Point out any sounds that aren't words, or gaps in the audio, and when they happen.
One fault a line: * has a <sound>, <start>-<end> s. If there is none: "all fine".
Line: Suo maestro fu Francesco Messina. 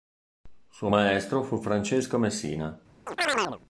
* has a chirp, 3.1-3.6 s